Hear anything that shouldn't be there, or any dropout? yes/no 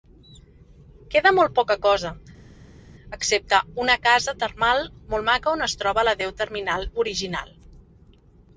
no